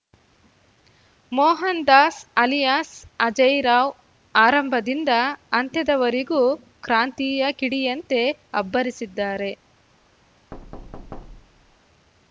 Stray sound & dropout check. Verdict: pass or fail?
fail